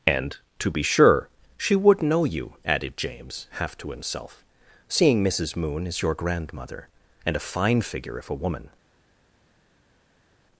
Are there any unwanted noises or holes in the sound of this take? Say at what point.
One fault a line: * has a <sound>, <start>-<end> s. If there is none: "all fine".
all fine